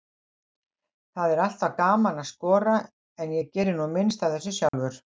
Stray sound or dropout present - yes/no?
yes